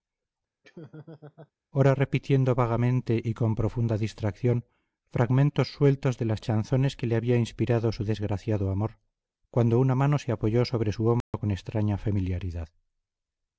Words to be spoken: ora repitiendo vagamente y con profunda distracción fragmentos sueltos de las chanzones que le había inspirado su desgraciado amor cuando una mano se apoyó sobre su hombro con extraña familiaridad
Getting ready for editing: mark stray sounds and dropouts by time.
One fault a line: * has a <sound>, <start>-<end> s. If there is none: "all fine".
* has a laugh, 0.6-1.5 s
* has a dropout, 11.2-11.3 s